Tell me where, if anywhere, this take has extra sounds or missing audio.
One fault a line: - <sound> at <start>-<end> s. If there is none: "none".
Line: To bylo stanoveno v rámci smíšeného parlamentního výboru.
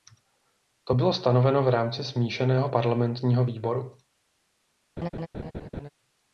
- laugh at 5.0-5.9 s